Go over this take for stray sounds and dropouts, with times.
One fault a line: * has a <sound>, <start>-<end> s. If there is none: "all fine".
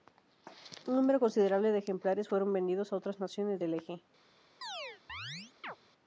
* has a chirp, 4.6-5.8 s